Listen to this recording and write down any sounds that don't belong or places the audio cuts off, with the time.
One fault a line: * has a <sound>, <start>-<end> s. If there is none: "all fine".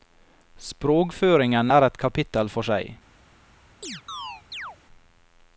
* has a chirp, 3.8-4.8 s